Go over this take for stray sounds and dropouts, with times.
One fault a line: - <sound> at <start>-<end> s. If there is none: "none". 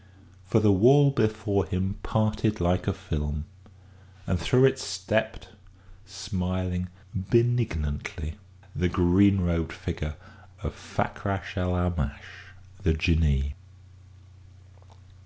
none